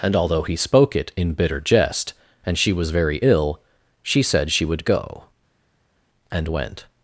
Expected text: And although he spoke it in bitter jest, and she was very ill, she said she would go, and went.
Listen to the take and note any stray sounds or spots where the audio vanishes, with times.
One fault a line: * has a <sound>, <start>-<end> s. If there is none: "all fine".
all fine